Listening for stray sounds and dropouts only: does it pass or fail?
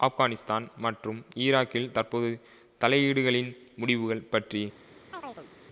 fail